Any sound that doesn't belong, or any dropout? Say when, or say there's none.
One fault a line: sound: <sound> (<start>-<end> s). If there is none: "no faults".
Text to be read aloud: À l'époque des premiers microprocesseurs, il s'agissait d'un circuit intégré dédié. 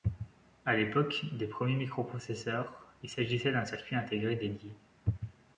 no faults